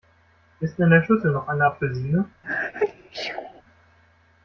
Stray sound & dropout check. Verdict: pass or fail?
fail